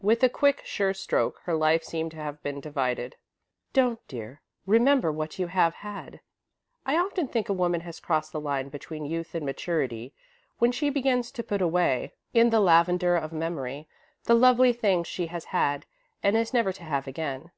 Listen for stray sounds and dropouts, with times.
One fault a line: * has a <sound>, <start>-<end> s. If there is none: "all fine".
all fine